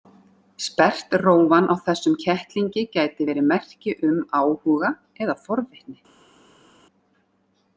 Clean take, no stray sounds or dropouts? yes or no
yes